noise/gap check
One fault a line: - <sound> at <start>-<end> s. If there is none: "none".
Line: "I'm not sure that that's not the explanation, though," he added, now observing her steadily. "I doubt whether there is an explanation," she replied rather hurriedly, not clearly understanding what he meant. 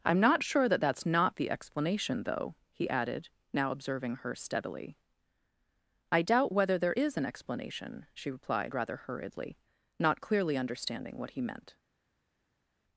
none